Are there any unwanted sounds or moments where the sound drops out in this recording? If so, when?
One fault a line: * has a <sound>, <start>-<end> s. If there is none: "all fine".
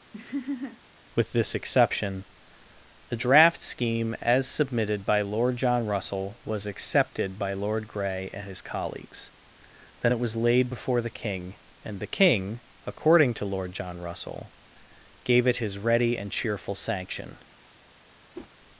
* has a laugh, 0.1-0.8 s
* has a whoosh, 18.3-18.5 s